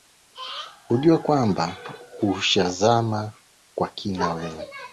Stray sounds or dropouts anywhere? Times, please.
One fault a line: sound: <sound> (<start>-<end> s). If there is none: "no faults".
no faults